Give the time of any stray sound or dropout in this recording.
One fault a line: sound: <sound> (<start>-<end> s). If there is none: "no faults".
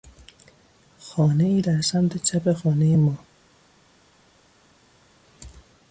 no faults